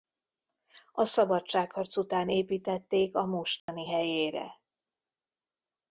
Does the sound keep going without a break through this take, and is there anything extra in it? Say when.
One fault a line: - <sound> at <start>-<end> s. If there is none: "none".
- dropout at 3.6-3.7 s